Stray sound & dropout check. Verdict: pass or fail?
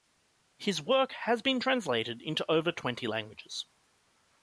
pass